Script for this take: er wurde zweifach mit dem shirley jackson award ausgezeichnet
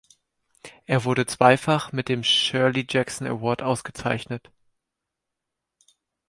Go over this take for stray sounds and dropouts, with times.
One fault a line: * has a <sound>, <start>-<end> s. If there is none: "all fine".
all fine